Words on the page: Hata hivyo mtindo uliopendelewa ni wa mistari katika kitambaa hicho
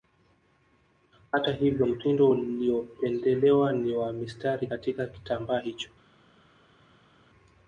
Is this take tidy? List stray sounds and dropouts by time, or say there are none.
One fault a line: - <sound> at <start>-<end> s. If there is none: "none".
none